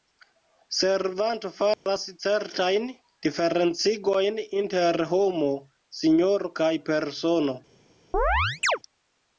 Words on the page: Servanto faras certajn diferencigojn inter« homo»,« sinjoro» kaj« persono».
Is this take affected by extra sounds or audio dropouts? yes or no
yes